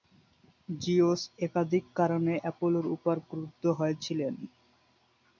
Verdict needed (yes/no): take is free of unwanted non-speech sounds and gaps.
yes